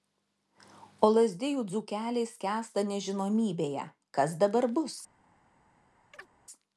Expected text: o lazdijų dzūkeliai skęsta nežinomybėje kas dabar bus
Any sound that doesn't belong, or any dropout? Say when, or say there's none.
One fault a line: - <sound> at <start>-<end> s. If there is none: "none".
- chirp at 6.1-6.3 s